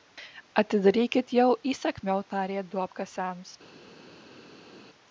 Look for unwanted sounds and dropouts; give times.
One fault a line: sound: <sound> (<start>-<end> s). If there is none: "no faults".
no faults